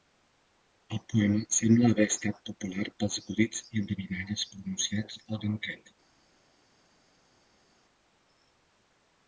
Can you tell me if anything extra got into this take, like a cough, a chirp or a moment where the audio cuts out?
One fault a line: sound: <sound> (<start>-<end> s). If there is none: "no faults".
no faults